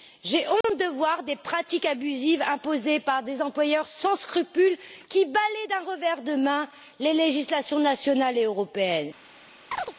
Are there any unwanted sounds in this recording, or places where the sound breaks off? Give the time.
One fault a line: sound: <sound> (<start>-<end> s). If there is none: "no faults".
sound: dropout (0.6-0.6 s)
sound: chirp (9.7-9.9 s)